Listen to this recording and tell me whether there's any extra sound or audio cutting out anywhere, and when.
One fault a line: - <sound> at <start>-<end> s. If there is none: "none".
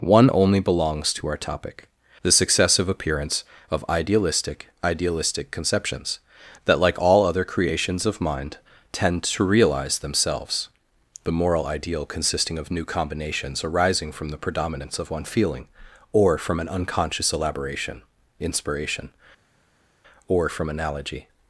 none